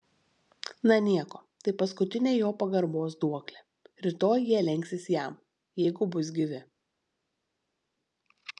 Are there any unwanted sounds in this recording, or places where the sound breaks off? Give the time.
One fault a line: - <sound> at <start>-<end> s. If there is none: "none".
none